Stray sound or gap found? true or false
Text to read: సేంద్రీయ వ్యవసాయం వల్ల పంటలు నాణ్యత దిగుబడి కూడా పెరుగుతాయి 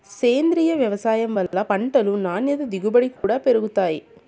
true